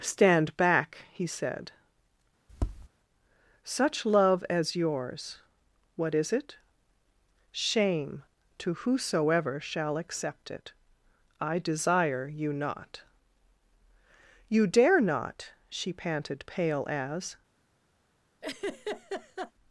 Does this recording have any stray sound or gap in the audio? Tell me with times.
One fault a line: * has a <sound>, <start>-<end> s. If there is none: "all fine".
* has a tap, 2.5-2.9 s
* has a laugh, 18.4-19.5 s